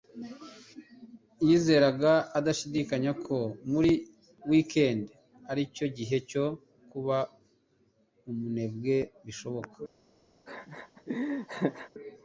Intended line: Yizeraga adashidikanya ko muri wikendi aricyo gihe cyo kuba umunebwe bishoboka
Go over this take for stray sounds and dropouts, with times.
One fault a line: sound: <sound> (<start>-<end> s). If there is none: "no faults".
sound: laugh (10.5-11.9 s)